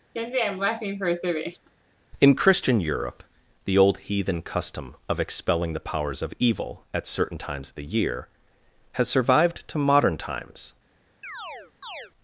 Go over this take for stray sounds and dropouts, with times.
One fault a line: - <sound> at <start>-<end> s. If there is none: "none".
- laugh at 0.1-1.7 s
- chirp at 11.2-12.1 s